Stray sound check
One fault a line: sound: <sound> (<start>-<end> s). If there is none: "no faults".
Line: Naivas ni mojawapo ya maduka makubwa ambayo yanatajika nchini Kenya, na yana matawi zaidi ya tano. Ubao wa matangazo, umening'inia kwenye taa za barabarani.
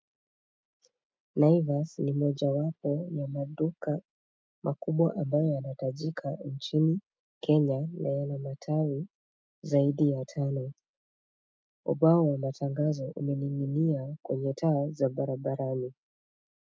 no faults